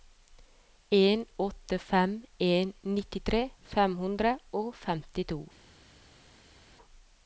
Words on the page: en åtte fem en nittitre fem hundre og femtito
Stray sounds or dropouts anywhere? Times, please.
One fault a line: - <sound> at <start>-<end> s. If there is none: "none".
none